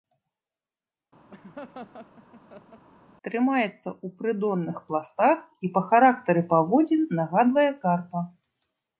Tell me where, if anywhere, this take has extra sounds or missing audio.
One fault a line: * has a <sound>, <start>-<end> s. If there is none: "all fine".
* has a laugh, 1.3-2.9 s